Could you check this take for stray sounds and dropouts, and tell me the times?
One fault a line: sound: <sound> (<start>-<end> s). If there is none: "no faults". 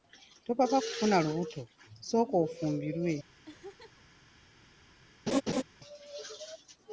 sound: laugh (3.5-4.0 s)
sound: laugh (5.3-5.6 s)